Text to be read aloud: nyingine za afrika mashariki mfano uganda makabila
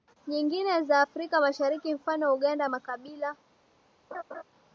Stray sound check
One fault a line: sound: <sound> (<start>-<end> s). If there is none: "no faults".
sound: laugh (4.1-4.4 s)